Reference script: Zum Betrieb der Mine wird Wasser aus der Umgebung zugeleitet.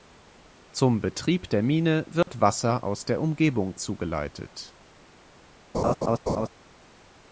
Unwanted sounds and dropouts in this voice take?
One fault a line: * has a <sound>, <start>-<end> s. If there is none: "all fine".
* has a dropout, 2.2-2.3 s
* has a laugh, 5.7-6.5 s